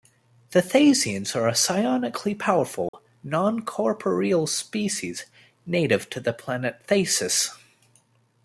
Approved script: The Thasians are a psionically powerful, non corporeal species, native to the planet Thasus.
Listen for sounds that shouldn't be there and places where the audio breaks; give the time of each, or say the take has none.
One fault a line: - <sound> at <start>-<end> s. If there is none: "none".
- dropout at 2.9-2.9 s